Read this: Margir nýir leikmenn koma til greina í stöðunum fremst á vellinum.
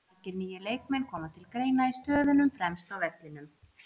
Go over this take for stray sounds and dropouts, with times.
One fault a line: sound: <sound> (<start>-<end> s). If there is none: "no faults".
no faults